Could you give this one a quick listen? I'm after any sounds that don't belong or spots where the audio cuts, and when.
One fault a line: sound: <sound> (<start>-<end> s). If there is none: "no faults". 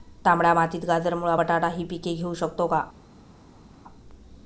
no faults